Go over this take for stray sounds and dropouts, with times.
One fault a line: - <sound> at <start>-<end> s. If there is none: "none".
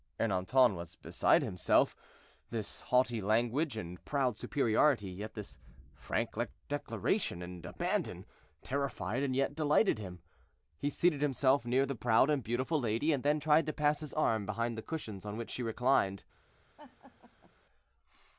- laugh at 16.8-17.5 s